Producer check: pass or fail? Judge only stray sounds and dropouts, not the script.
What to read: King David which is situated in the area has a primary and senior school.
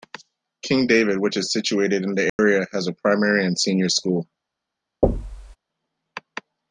fail